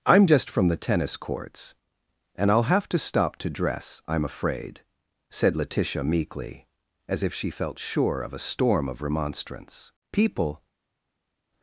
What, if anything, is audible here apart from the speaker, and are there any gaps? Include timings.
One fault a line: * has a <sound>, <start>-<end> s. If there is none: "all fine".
all fine